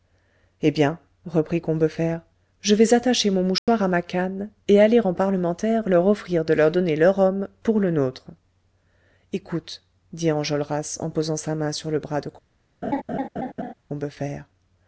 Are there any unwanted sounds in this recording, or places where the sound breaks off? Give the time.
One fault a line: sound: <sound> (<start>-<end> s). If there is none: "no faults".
sound: dropout (3.6-3.7 s)
sound: laugh (12.8-13.7 s)